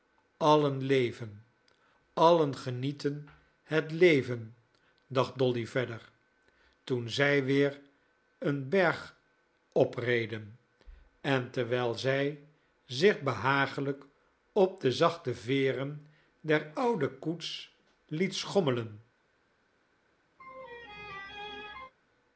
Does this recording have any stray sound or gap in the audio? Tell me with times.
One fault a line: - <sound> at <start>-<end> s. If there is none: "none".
- laugh at 20.4-21.9 s